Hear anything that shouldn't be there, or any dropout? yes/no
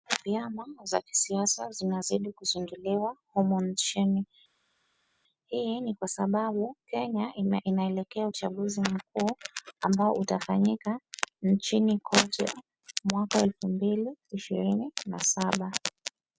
no